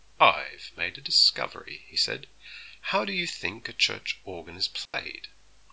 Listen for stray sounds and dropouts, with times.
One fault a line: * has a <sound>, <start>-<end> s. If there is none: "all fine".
* has a dropout, 4.9-4.9 s